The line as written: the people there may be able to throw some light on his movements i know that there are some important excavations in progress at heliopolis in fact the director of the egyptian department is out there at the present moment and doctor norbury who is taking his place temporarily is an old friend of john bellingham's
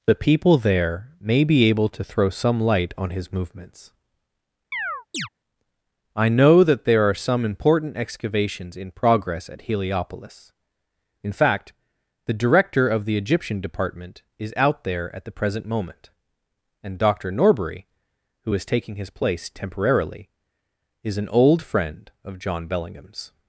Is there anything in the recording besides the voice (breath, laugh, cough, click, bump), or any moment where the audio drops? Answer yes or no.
yes